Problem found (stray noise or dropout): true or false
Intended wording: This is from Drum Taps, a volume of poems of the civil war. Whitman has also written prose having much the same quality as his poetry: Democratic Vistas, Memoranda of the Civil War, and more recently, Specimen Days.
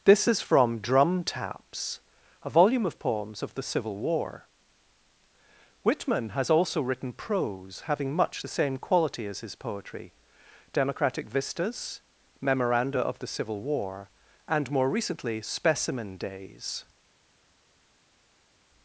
false